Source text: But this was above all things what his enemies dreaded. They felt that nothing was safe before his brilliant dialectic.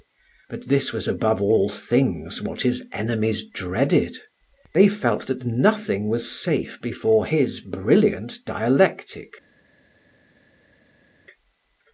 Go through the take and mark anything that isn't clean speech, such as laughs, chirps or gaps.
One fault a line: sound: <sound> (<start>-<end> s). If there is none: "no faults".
no faults